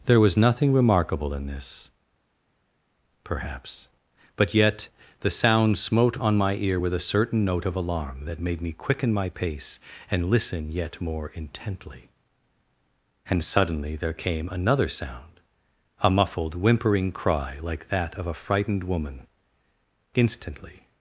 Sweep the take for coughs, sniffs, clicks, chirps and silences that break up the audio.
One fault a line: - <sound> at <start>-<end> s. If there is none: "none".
none